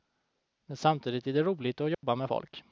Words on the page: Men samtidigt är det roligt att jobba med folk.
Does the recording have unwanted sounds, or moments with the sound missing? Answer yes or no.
yes